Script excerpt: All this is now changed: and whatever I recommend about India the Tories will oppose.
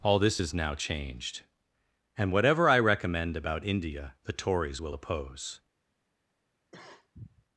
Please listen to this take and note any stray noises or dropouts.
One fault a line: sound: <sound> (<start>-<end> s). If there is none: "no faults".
sound: cough (6.7-7.5 s)